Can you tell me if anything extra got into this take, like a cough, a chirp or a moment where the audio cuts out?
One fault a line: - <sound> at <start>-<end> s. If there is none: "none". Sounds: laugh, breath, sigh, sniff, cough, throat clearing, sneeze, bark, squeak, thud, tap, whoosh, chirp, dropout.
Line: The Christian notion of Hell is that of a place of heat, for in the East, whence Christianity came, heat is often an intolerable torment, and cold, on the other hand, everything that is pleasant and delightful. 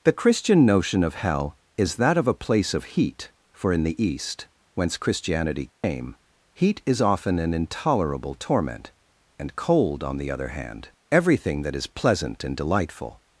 - dropout at 5.7-5.8 s